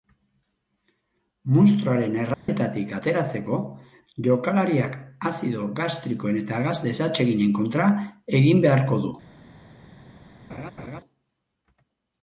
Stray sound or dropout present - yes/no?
yes